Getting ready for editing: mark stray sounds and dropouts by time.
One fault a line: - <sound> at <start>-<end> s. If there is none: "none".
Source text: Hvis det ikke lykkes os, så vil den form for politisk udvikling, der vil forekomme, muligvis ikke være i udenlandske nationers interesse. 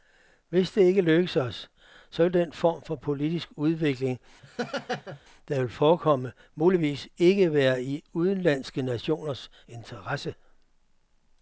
- laugh at 4.4-5.2 s